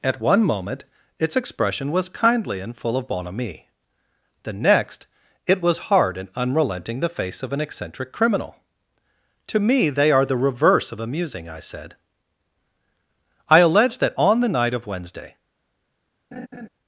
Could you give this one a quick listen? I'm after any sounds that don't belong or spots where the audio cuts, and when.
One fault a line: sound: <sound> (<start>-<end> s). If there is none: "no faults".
sound: laugh (16.3-16.7 s)